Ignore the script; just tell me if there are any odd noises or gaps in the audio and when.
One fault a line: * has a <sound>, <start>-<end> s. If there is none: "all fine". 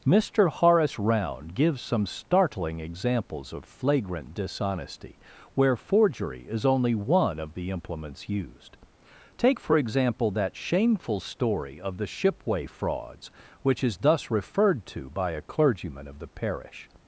all fine